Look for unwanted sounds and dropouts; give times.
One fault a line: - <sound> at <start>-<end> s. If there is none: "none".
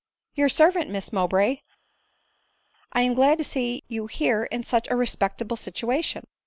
none